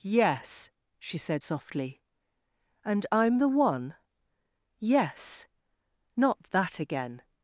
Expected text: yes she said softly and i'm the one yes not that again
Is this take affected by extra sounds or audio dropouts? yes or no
no